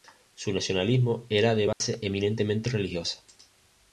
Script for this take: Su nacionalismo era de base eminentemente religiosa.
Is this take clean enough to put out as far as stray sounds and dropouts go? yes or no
no